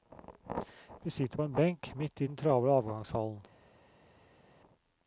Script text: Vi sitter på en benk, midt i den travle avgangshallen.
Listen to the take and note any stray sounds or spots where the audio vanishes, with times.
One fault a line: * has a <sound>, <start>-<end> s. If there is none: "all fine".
all fine